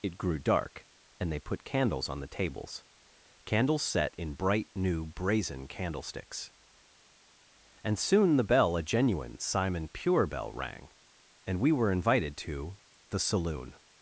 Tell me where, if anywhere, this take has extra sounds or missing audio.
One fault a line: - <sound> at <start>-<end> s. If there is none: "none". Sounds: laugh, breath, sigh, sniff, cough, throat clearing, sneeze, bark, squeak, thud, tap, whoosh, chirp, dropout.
none